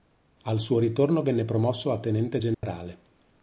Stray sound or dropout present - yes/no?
yes